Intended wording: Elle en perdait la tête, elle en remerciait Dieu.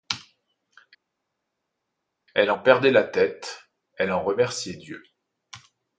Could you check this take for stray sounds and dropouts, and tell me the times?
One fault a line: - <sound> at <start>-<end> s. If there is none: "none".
none